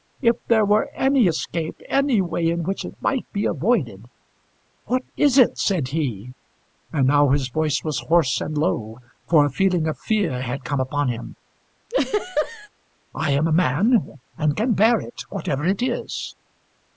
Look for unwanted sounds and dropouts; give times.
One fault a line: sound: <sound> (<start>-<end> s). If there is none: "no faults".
sound: laugh (11.9-12.7 s)